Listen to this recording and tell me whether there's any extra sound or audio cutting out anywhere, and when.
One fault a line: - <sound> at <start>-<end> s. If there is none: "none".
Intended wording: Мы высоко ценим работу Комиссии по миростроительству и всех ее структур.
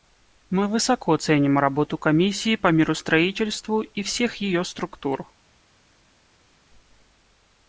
none